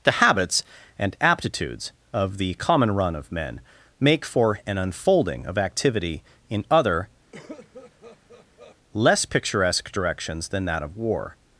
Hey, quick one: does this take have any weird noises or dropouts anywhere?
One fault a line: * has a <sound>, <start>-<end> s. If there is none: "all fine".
* has a cough, 7.3-8.8 s